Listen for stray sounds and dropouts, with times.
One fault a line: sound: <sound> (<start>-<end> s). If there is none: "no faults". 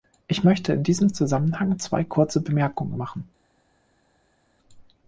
no faults